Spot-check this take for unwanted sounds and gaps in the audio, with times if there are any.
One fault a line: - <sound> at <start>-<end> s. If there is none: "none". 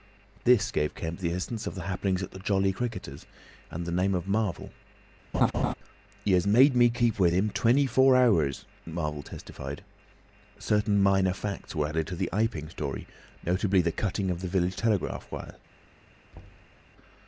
- laugh at 5.3-5.7 s
- thud at 16.3-16.8 s